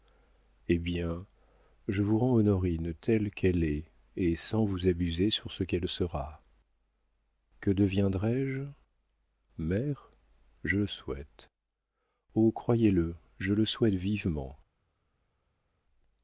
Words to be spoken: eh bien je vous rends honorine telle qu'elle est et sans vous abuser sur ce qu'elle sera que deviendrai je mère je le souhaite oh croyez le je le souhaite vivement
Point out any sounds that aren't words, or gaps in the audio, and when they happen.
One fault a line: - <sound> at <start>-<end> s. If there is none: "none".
none